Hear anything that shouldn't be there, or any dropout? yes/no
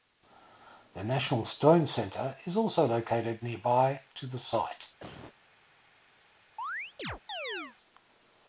yes